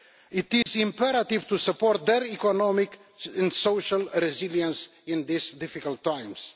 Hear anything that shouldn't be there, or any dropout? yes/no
yes